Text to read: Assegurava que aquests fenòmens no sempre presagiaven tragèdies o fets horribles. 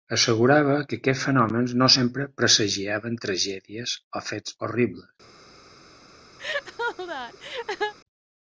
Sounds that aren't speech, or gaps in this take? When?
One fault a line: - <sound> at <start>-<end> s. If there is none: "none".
- laugh at 6.4-7.9 s